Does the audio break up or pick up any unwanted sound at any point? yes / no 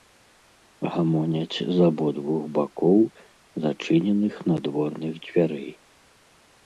no